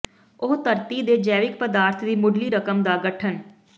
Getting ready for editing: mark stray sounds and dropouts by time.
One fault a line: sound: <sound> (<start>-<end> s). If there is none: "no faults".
no faults